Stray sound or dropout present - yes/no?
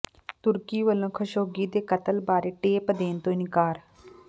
no